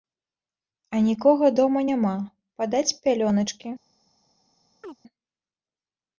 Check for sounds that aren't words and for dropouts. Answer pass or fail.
fail